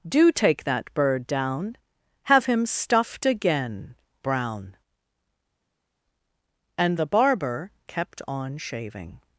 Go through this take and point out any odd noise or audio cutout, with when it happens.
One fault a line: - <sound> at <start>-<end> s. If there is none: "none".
none